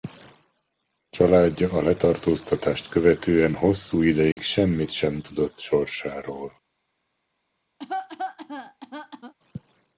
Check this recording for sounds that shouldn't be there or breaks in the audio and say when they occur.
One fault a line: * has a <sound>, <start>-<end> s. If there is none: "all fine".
* has a dropout, 4.3-4.4 s
* has a cough, 7.8-9.3 s